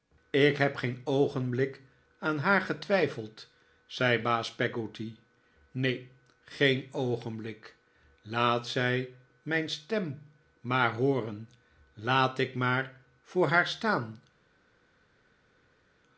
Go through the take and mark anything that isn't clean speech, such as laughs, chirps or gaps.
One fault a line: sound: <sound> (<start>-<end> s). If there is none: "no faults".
no faults